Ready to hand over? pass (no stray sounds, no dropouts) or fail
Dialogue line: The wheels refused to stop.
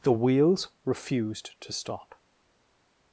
pass